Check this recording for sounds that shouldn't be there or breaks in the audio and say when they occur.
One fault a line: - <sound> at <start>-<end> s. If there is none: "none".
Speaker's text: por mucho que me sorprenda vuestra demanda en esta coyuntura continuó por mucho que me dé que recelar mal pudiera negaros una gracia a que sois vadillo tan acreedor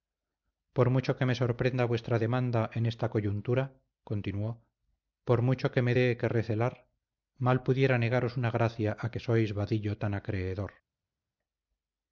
none